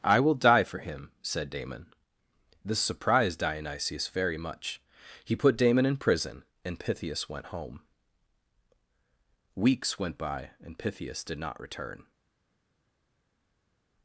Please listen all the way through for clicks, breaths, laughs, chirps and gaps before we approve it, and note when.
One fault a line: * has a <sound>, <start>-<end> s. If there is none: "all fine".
all fine